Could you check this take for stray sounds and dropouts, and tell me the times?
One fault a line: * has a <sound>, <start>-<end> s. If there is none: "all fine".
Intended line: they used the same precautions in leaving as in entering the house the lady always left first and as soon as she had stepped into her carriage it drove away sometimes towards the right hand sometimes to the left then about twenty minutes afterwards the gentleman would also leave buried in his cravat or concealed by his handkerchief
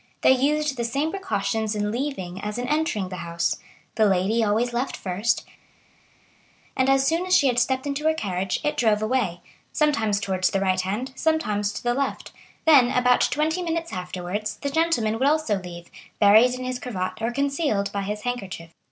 all fine